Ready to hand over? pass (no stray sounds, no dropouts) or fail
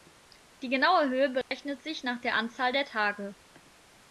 fail